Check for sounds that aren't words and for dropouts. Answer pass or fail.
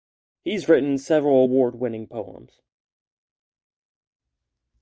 pass